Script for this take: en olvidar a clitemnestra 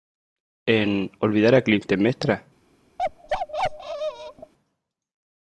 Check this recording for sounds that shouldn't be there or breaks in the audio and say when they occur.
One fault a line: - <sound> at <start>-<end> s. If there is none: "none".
- bark at 3.0-4.5 s